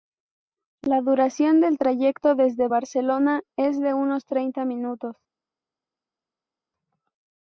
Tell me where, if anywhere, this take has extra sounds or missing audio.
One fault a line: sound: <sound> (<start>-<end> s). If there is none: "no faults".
no faults